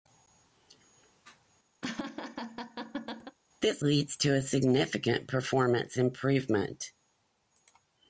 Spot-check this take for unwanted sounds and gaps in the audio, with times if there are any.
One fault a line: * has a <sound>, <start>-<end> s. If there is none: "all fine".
* has a laugh, 1.8-3.4 s